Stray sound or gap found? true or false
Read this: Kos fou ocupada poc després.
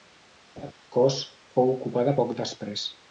true